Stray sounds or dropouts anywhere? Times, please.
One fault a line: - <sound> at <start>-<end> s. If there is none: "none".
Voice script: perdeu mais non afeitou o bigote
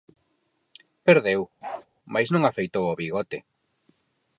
- bark at 1.6-1.9 s